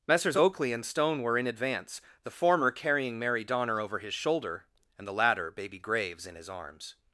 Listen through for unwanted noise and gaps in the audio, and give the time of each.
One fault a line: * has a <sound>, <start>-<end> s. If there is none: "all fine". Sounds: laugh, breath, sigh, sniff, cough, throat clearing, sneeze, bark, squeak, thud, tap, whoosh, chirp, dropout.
all fine